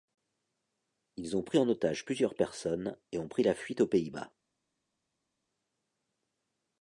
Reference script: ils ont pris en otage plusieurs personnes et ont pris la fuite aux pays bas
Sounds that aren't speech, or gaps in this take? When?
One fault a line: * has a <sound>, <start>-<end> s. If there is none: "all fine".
all fine